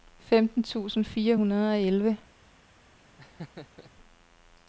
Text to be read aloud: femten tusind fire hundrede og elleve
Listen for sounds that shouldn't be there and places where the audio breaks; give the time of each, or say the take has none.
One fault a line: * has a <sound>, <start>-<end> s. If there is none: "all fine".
* has a laugh, 3.2-3.9 s